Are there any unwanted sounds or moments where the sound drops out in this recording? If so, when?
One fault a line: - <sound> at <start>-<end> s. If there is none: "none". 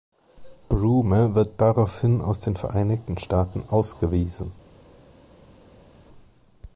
none